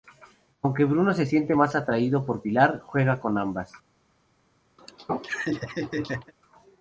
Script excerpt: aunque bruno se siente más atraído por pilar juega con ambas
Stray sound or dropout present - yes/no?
yes